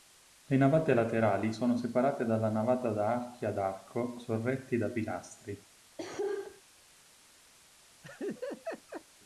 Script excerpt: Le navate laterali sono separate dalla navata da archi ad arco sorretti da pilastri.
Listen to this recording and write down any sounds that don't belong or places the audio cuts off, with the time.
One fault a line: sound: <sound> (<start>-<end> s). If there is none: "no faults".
sound: cough (6.0-6.6 s)
sound: laugh (8.0-9.0 s)